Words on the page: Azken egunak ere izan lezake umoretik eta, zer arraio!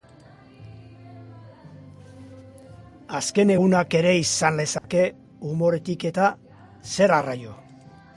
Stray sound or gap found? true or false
true